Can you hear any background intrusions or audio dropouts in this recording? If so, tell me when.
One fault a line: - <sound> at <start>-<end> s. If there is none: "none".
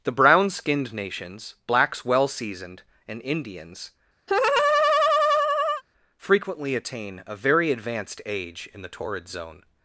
- laugh at 4.3-5.8 s